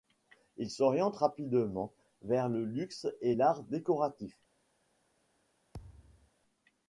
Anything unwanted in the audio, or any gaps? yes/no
yes